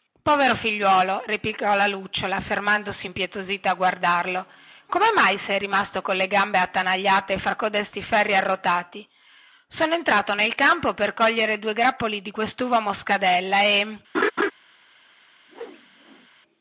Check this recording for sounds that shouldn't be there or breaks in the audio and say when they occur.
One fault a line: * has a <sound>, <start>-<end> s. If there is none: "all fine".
* has a laugh, 14.1-14.5 s
* has a whoosh, 15.5-16.3 s